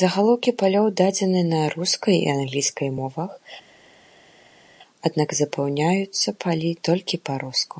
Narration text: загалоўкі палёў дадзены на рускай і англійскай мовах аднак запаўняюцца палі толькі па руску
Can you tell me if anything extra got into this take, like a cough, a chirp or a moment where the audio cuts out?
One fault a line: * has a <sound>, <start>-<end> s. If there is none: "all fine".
all fine